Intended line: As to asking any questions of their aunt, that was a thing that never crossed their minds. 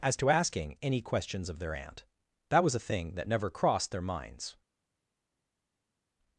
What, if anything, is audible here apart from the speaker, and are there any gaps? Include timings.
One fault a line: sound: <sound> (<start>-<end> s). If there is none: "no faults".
no faults